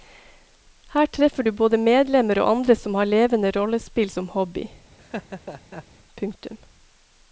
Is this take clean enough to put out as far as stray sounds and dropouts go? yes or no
no